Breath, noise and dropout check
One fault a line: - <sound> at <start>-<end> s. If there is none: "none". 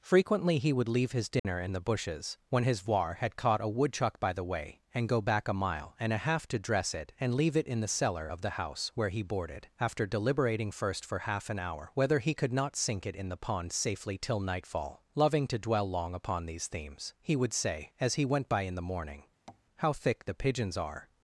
- dropout at 1.4-1.4 s
- tap at 19.5-19.7 s